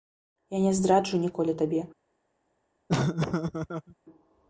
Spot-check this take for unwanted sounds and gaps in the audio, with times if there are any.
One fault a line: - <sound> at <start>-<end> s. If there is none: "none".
- laugh at 2.9-3.9 s